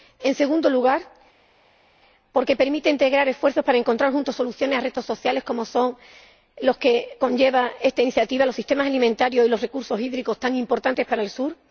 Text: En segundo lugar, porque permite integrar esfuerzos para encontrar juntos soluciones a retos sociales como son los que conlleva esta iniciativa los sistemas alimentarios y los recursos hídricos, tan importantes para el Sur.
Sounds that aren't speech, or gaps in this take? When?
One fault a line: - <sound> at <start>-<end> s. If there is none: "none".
none